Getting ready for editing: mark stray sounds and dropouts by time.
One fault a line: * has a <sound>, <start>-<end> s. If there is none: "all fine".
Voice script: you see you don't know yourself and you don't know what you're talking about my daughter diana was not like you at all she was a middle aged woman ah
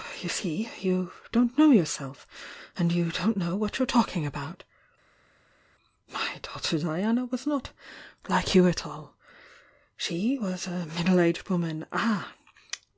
all fine